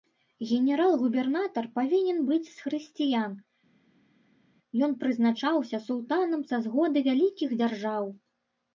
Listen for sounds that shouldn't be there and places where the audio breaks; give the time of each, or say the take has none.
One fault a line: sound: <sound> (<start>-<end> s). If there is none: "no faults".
no faults